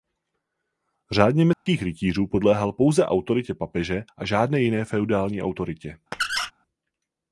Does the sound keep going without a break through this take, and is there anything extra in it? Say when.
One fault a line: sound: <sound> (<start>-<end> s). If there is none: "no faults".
sound: dropout (1.5-1.7 s)
sound: squeak (6.1-6.5 s)